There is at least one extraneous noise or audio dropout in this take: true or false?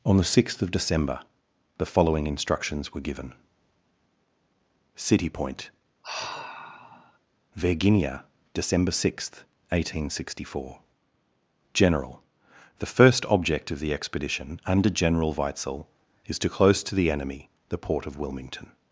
true